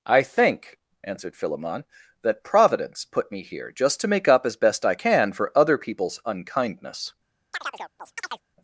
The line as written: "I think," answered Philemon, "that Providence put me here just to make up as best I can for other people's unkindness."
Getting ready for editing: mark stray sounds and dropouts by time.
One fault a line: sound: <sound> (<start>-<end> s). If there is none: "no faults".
sound: chirp (7.5-8.4 s)